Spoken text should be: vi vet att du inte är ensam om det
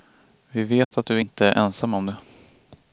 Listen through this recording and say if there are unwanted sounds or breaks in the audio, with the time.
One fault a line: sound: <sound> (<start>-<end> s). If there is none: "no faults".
sound: dropout (0.8-0.9 s)